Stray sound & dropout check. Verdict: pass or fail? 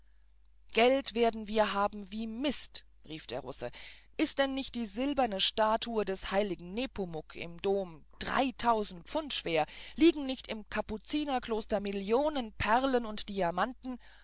pass